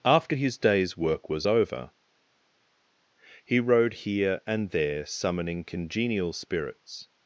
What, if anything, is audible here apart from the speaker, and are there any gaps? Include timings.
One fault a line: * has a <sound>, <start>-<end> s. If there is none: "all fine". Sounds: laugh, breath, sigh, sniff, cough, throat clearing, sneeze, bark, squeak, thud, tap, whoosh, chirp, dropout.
all fine